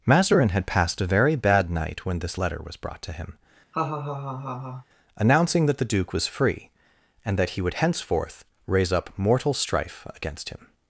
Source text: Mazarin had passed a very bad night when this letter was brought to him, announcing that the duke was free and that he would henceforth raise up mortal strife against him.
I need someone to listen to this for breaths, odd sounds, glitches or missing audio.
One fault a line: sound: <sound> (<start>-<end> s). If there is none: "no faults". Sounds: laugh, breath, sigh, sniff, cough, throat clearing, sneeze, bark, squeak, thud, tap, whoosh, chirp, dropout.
sound: laugh (3.7-4.9 s)